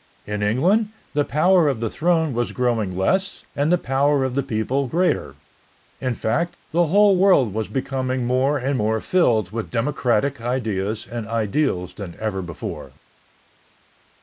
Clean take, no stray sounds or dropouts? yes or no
yes